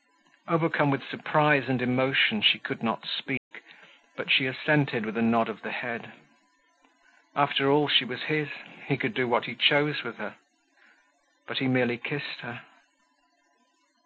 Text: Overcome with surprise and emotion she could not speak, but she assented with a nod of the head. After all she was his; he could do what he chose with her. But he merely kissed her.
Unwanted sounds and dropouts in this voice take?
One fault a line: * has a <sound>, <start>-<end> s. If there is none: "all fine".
* has a dropout, 3.4-3.5 s